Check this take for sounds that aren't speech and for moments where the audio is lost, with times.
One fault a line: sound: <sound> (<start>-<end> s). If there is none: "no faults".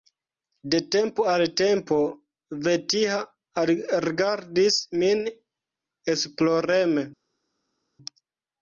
no faults